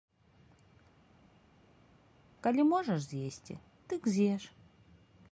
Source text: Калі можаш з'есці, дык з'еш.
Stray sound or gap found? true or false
false